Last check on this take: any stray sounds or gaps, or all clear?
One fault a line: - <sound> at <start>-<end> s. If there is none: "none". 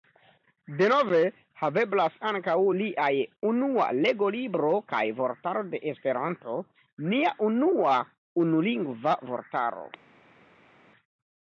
none